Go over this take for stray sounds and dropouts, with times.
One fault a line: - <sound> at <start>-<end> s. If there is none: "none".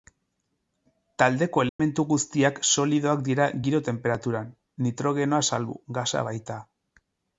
- dropout at 1.7-1.8 s